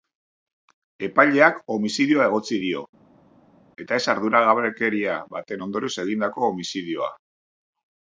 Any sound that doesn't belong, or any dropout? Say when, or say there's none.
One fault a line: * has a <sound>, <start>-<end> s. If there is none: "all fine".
all fine